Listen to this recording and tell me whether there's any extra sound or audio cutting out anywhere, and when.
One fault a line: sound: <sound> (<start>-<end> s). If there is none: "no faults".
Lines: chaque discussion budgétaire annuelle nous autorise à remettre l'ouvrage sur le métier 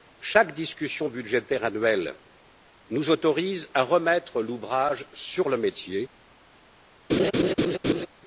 sound: laugh (7.1-8.1 s)